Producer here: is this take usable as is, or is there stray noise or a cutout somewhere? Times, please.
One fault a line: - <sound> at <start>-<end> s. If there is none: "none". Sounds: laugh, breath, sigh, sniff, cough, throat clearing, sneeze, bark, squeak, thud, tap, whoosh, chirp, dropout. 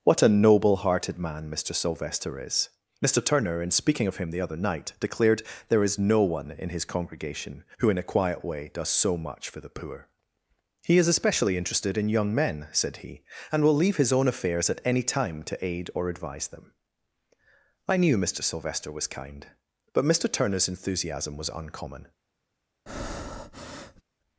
- breath at 22.9-24.0 s